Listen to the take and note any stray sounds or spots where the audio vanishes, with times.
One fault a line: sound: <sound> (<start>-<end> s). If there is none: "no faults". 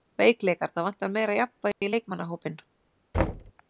sound: dropout (1.7-1.8 s)
sound: thud (3.1-3.5 s)